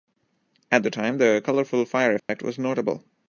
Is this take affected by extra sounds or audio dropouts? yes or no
yes